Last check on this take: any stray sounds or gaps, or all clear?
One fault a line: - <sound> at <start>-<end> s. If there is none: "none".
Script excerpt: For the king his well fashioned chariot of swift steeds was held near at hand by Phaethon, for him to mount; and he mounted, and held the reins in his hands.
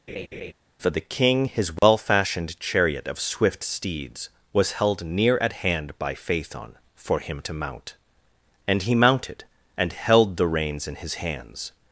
- laugh at 0.1-0.5 s
- dropout at 1.8-1.8 s